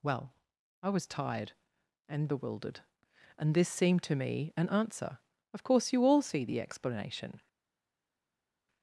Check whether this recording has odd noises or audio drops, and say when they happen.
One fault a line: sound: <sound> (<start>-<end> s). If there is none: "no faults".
no faults